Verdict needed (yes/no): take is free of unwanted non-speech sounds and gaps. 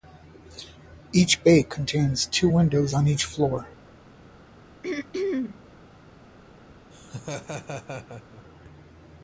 no